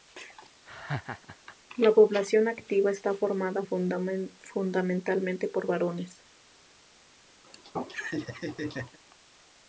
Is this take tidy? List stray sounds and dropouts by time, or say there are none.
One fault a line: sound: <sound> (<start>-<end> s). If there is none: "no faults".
sound: laugh (0.7-1.6 s)
sound: laugh (7.4-9.0 s)